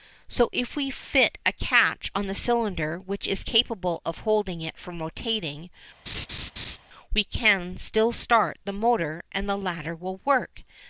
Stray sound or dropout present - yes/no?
yes